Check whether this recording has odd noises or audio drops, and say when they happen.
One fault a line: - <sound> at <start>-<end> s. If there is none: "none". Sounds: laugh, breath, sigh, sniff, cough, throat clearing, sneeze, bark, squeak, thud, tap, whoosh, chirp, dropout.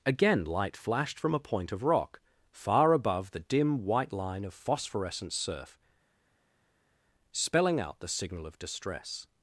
none